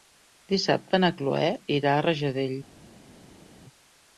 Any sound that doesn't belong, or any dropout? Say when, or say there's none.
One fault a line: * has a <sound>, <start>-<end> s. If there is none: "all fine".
all fine